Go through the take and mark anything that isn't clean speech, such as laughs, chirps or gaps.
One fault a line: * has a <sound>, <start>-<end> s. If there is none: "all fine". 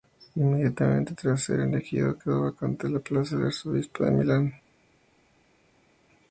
all fine